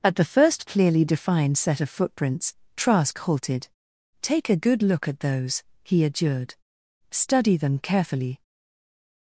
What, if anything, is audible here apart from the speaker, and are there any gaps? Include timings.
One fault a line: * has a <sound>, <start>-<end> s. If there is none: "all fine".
all fine